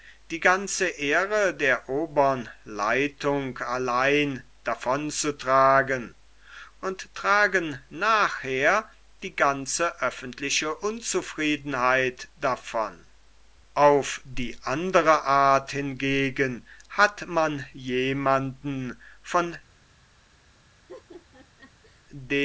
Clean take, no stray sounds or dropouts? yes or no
no